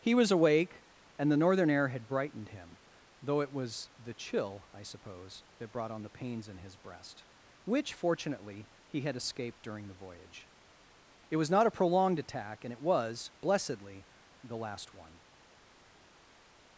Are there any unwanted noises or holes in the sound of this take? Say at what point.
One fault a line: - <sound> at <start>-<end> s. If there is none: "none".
none